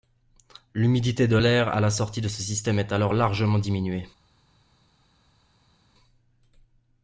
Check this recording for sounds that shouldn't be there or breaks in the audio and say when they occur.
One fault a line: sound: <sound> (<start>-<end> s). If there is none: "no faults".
no faults